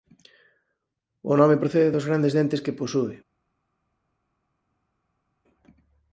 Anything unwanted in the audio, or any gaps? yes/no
no